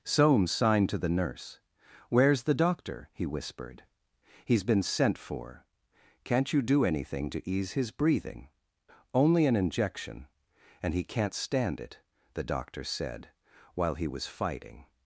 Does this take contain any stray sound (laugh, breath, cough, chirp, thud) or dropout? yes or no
no